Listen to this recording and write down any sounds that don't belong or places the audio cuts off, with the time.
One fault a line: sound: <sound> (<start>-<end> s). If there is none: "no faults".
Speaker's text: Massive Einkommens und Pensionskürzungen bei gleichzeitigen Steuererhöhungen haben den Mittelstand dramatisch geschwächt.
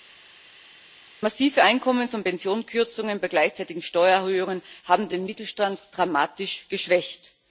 no faults